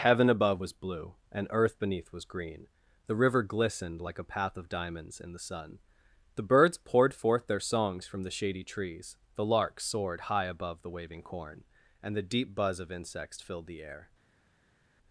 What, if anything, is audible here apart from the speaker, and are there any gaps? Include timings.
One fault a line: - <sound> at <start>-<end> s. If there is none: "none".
none